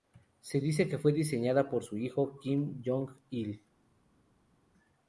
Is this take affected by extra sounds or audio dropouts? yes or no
no